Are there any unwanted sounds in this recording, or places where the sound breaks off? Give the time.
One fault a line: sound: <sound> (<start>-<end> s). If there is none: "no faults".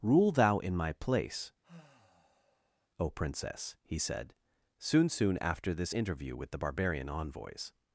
sound: sigh (1.6-2.9 s)